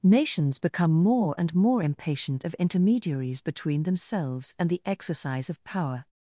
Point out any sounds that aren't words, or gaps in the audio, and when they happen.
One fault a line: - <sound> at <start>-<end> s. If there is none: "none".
none